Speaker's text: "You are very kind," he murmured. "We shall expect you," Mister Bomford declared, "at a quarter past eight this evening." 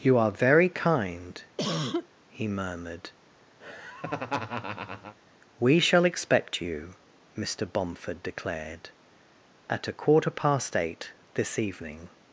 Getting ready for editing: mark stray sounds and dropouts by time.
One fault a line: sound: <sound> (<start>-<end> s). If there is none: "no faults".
sound: cough (1.6-2.1 s)
sound: laugh (3.6-5.2 s)